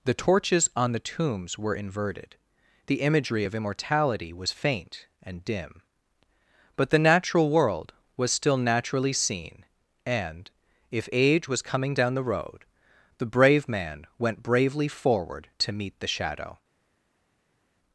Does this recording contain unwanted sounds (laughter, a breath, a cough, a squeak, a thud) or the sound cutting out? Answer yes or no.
no